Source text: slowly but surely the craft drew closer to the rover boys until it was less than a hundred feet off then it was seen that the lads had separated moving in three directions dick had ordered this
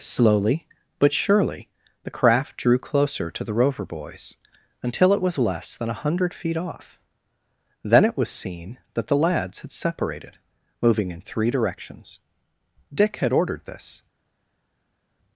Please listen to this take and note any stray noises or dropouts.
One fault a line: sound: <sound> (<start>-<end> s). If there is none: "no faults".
no faults